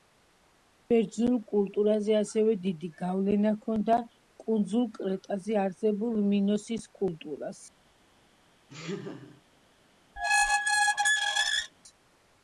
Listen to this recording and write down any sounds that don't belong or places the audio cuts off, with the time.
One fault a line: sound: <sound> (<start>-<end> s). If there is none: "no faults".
sound: laugh (8.7-9.4 s)
sound: squeak (10.2-11.7 s)